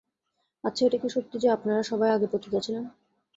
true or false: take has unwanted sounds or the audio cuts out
false